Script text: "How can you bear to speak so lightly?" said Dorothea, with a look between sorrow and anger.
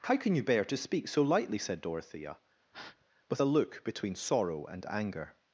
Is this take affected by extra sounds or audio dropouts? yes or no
yes